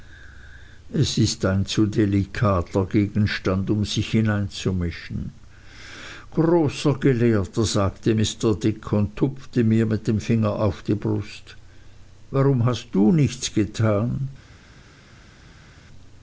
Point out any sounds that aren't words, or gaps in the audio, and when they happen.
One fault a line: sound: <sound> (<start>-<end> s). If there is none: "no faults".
no faults